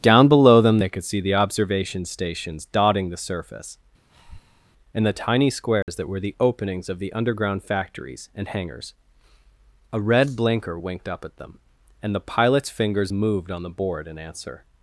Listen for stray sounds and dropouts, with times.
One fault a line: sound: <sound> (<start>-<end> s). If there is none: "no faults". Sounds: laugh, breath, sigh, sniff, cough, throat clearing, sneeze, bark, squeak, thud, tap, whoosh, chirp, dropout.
sound: breath (4.1-4.7 s)
sound: dropout (5.8-5.9 s)